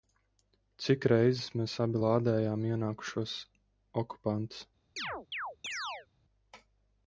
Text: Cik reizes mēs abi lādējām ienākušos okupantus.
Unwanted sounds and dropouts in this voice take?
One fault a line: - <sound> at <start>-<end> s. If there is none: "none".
- chirp at 5.0-6.1 s